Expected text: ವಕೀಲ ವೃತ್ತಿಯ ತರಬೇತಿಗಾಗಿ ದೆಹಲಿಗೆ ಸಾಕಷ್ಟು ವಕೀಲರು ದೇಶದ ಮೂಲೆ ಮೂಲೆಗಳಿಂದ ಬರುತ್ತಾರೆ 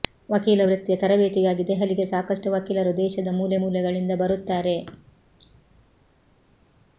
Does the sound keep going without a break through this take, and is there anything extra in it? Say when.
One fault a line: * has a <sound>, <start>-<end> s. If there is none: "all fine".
all fine